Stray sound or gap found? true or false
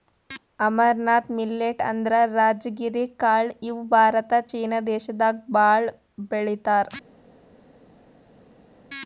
false